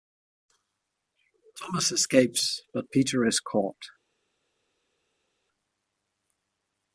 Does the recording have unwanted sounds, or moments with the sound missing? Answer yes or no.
no